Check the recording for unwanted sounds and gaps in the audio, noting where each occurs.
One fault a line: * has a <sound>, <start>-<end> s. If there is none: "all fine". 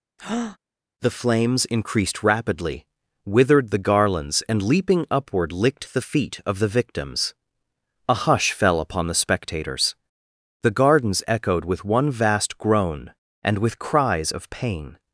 * has a breath, 0.2-0.6 s